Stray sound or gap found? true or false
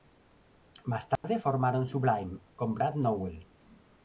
true